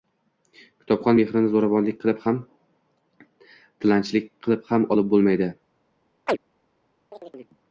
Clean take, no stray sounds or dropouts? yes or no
no